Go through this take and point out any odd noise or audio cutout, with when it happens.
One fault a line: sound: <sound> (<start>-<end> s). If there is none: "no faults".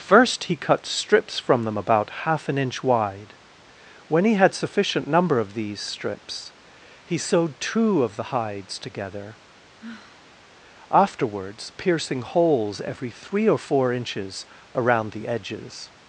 sound: sigh (9.8-10.4 s)